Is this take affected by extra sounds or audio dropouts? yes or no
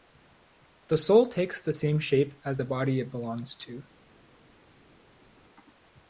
no